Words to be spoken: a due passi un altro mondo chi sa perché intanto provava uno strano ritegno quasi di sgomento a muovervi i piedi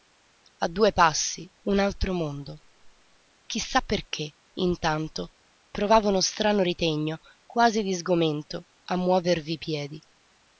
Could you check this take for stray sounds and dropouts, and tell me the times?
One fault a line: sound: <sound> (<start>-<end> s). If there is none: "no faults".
no faults